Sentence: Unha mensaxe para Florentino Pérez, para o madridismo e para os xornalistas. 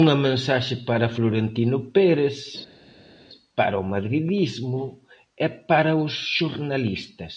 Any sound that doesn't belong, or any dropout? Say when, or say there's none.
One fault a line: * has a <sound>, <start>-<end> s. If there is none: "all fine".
all fine